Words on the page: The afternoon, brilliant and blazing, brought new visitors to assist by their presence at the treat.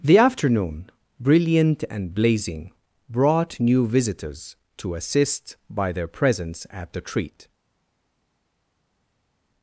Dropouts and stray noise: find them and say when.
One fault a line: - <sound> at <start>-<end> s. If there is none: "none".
none